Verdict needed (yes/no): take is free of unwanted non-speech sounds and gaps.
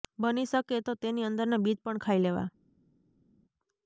yes